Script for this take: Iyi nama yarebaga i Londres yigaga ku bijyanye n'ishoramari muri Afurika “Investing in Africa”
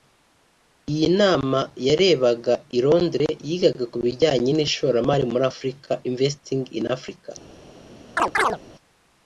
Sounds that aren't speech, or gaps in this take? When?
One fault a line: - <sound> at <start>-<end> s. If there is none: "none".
- chirp at 8.2-8.6 s